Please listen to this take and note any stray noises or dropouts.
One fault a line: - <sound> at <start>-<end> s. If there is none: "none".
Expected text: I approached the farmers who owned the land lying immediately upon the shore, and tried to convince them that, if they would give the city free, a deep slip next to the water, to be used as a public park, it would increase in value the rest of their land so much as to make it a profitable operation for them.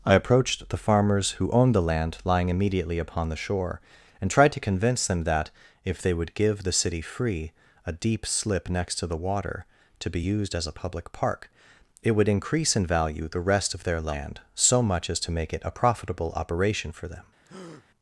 - breath at 17.4-17.9 s